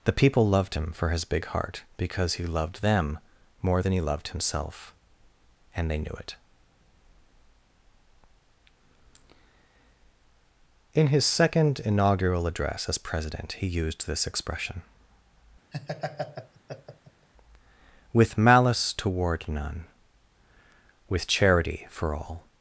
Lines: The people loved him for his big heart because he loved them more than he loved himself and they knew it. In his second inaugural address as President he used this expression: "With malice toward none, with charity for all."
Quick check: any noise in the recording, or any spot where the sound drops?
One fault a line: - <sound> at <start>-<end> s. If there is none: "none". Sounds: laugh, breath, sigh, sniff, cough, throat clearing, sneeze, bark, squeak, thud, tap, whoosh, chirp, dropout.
- laugh at 15.7-17.3 s